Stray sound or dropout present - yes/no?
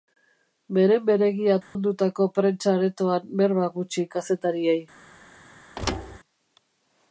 yes